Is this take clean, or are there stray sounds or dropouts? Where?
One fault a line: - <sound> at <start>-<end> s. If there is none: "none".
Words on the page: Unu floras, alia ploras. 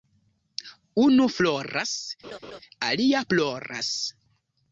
- laugh at 2.2-2.6 s